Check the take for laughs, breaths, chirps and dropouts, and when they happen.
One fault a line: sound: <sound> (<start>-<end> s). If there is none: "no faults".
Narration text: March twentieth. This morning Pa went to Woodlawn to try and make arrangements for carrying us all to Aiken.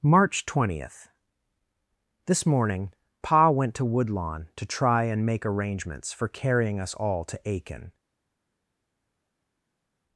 no faults